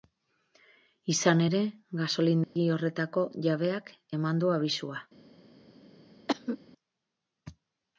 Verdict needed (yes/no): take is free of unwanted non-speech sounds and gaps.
no